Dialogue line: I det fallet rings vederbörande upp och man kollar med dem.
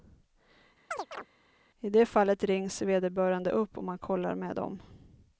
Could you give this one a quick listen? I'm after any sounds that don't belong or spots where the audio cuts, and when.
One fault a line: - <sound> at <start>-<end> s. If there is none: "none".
- chirp at 0.9-1.3 s